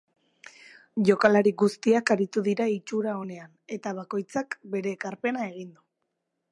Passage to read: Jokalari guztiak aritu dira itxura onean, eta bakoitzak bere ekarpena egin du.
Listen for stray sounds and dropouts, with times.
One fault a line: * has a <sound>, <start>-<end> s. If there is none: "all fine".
all fine